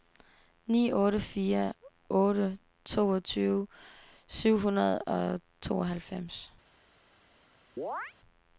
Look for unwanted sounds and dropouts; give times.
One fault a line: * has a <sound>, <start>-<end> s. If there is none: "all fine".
* has a chirp, 7.8-8.1 s